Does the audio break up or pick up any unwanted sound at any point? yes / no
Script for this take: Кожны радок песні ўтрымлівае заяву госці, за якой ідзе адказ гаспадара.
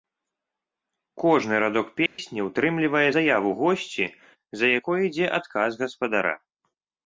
yes